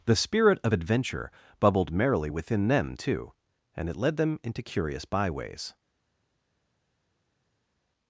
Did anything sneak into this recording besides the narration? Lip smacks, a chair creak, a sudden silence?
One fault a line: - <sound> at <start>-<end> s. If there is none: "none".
none